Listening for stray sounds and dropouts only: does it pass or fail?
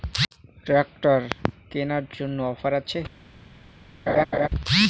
fail